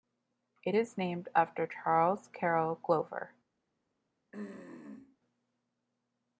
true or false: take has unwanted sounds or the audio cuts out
true